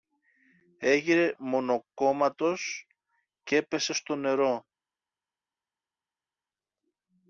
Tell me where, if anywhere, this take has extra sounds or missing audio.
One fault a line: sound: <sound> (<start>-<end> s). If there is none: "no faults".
no faults